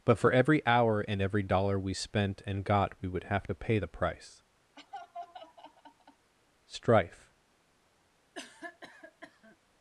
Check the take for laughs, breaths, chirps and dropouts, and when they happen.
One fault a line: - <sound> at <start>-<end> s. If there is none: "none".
- laugh at 4.8-6.3 s
- cough at 8.3-9.6 s